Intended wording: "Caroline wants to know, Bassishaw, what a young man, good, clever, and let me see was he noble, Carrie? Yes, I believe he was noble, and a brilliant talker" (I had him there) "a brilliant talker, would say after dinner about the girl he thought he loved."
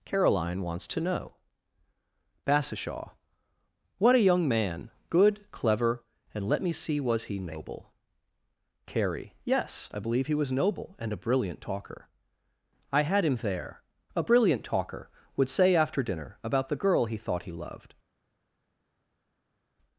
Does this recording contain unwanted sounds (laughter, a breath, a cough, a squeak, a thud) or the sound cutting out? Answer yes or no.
no